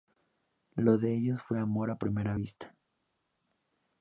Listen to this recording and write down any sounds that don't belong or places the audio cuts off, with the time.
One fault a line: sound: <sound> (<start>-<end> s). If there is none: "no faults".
no faults